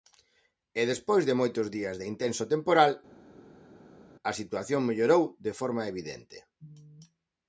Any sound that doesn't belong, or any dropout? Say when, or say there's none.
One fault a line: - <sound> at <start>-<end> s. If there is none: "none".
none